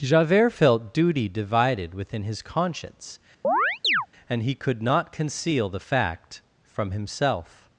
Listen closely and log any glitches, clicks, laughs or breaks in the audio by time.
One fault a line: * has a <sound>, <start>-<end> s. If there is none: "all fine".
* has a chirp, 3.4-4.1 s